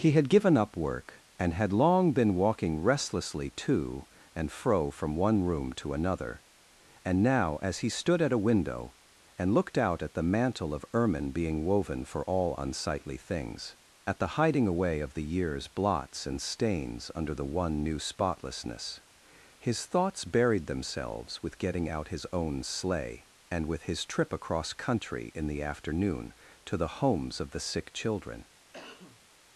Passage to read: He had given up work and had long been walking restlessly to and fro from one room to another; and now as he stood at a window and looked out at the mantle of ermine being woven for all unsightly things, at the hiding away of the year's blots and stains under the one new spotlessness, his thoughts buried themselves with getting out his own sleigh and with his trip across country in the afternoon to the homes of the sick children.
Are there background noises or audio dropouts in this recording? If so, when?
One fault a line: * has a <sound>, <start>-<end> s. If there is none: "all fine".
* has a cough, 28.7-29.2 s